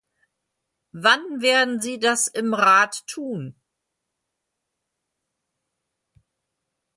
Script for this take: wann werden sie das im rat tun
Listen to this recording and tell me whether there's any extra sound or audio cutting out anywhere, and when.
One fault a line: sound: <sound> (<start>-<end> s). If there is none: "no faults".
no faults